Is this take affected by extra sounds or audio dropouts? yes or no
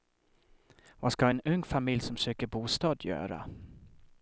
no